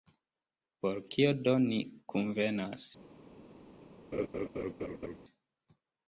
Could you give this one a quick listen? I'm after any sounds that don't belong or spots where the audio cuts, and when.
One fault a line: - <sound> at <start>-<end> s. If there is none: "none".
- laugh at 4.1-5.2 s